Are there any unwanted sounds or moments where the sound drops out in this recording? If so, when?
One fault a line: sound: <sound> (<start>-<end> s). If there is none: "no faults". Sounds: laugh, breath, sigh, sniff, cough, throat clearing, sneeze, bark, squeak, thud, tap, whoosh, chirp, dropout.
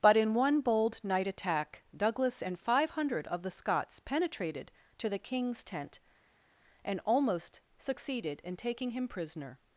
no faults